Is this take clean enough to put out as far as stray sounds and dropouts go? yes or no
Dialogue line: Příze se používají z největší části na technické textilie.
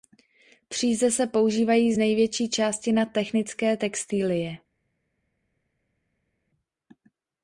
yes